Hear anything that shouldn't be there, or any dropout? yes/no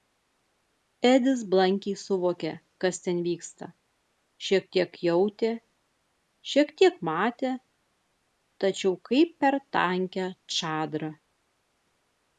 no